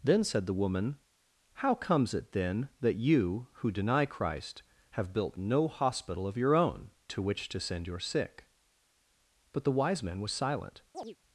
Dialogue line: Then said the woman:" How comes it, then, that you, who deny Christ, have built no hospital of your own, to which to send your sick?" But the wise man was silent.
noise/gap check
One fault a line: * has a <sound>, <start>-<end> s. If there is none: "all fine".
* has a chirp, 10.9-11.2 s